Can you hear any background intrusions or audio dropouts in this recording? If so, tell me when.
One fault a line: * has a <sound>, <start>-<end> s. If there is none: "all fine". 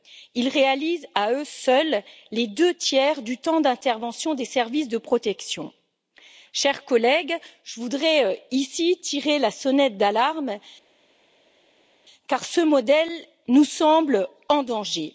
all fine